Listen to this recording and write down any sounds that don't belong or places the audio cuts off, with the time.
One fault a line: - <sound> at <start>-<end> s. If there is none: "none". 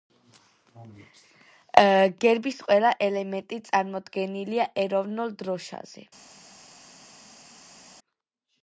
none